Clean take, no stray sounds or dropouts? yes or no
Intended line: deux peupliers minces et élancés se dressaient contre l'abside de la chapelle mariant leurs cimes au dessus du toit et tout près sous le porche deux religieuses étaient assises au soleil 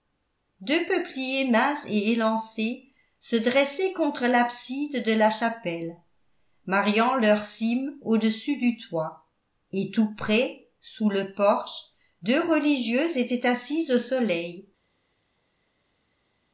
yes